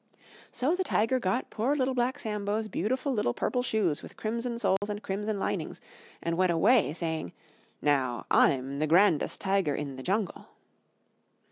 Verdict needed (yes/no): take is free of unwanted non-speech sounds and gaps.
no